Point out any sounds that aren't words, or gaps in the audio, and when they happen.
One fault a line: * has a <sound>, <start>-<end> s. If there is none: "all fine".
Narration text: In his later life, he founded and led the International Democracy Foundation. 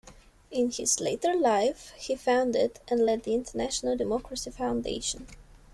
all fine